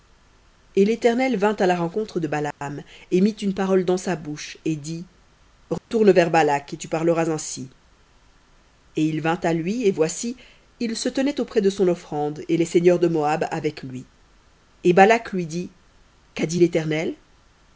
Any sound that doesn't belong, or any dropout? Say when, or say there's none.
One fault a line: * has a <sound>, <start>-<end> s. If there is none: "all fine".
* has a dropout, 2.5-2.6 s
* has a dropout, 5.8-5.9 s